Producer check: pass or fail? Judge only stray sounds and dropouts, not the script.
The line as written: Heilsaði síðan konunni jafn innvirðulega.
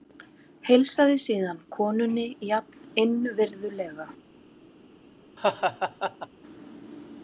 fail